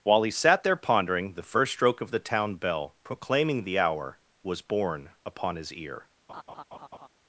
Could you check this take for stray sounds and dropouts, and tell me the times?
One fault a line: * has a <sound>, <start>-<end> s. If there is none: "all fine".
* has a laugh, 6.3-7.1 s